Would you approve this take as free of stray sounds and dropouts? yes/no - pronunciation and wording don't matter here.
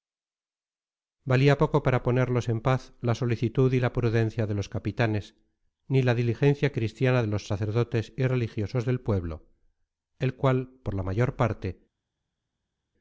yes